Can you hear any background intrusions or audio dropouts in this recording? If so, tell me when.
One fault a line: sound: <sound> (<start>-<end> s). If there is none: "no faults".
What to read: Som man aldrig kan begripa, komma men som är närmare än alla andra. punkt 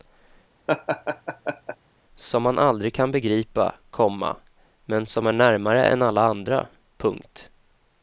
sound: laugh (0.7-1.8 s)